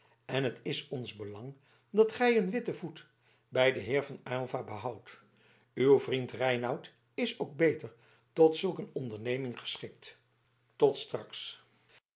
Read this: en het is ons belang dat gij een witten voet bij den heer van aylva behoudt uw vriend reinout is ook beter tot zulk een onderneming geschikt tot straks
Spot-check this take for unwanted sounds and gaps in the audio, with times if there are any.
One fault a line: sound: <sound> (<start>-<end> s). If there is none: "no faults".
no faults